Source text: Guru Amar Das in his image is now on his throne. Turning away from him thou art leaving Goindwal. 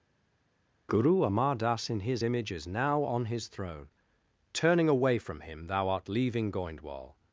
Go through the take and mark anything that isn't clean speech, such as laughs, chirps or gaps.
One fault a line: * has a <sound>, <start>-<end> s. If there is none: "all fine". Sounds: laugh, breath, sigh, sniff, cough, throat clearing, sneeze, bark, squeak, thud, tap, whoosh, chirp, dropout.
all fine